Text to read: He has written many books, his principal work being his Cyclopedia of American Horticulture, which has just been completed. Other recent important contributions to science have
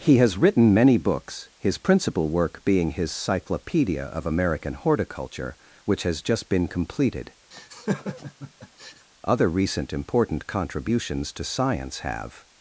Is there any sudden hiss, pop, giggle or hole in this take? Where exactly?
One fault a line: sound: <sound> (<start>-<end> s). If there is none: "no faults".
sound: laugh (7.5-9.1 s)